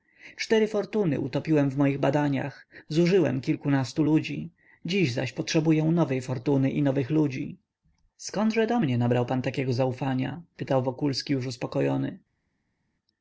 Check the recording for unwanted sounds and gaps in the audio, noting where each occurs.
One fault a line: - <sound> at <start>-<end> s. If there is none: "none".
none